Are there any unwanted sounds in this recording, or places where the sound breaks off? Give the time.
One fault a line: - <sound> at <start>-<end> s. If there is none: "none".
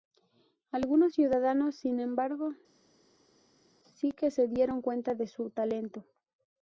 none